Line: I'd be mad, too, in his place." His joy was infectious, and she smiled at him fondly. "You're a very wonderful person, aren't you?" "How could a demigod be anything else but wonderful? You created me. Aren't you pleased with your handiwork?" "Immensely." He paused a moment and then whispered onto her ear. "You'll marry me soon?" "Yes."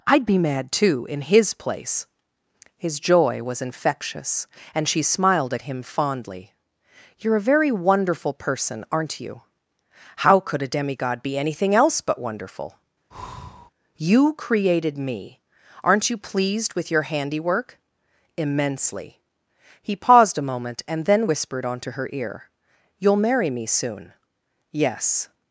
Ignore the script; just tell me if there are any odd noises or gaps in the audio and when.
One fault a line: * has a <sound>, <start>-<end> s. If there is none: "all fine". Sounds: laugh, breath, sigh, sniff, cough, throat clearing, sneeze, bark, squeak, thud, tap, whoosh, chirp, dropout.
* has a breath, 13.1-13.7 s